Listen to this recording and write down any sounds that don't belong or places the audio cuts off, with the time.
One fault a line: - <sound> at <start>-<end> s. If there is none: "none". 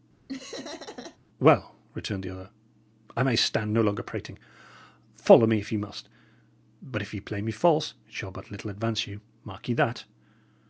- laugh at 0.3-1.2 s